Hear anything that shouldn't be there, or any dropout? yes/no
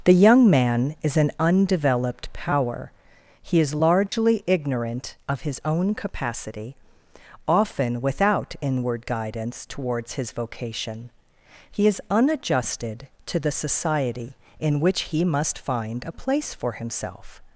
yes